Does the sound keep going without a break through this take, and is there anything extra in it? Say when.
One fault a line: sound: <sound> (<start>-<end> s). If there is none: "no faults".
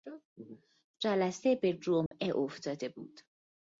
sound: dropout (2.1-2.1 s)